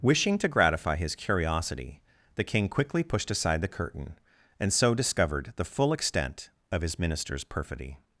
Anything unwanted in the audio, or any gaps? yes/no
no